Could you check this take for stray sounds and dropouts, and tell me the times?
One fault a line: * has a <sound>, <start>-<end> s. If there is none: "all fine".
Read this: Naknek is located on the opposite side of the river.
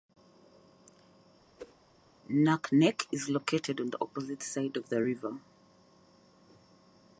* has a whoosh, 1.6-1.8 s